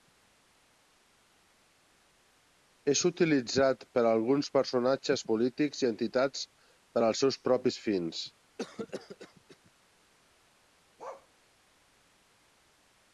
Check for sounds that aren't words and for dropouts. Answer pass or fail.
fail